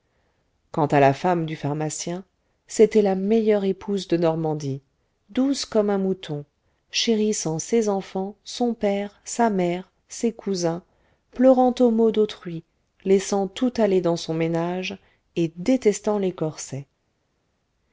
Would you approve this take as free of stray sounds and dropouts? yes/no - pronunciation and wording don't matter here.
yes